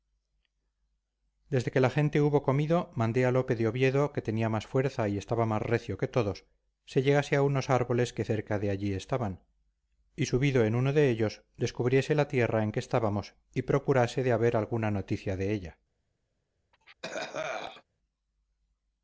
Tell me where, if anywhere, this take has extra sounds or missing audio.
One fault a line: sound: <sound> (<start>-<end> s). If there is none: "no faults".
sound: cough (16.7-17.8 s)